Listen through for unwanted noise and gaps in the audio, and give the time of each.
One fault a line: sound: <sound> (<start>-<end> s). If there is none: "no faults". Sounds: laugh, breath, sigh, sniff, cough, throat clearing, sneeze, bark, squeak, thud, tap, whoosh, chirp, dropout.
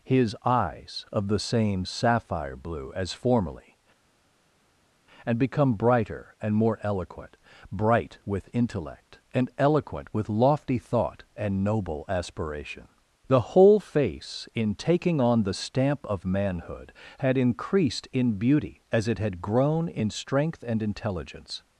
no faults